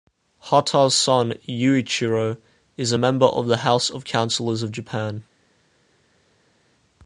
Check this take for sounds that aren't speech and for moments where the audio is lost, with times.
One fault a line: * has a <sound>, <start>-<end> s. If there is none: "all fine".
all fine